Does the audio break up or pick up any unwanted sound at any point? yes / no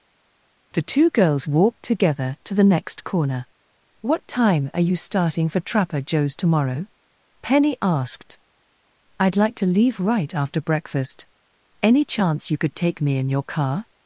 no